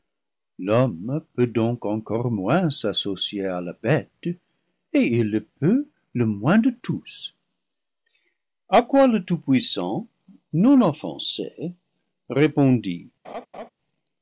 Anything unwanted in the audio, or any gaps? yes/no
yes